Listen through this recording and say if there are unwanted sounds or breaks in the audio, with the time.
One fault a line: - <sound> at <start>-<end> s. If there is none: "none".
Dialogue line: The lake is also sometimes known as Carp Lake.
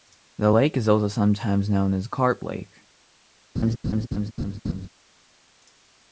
- laugh at 3.6-4.9 s